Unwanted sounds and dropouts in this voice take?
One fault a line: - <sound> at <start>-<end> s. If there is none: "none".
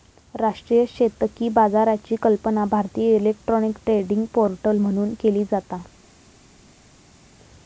none